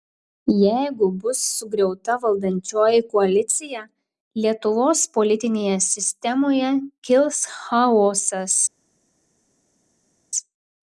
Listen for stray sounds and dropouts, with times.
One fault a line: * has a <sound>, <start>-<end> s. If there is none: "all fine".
all fine